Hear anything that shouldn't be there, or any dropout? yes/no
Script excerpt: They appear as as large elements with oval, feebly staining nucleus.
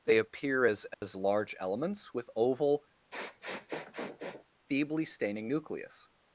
yes